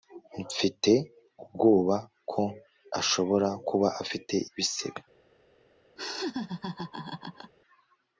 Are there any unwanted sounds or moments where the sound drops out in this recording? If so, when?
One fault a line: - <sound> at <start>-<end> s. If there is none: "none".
- laugh at 6.0-7.5 s